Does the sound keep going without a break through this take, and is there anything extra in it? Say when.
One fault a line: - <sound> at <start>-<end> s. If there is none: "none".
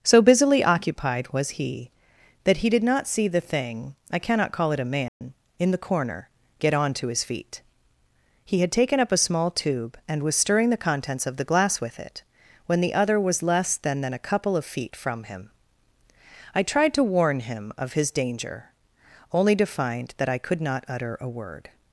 - dropout at 5.1-5.2 s